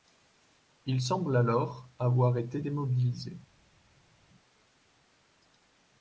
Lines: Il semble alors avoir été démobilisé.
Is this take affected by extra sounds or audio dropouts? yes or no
no